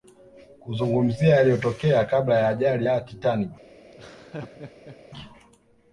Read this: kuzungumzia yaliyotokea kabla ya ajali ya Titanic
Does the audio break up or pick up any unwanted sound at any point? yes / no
yes